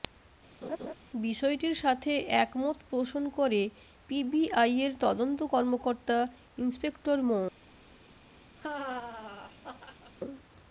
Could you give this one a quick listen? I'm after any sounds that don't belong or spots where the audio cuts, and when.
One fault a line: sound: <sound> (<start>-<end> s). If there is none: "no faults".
sound: laugh (0.6-0.9 s)
sound: laugh (8.6-10.1 s)